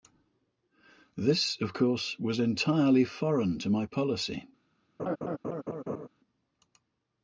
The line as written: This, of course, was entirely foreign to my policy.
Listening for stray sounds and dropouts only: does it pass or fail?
fail